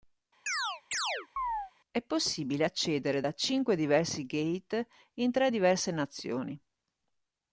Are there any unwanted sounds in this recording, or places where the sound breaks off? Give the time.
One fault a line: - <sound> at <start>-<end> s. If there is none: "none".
- chirp at 0.5-1.7 s